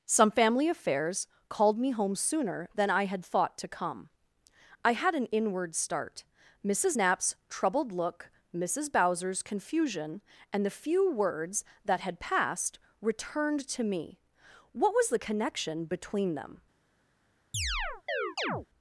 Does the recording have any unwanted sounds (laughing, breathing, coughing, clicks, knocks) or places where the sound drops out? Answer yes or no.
yes